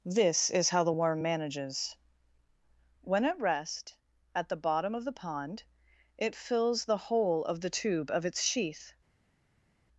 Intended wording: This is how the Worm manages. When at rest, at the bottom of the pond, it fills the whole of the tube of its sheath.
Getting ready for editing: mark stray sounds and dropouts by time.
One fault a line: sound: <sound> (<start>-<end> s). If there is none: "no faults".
no faults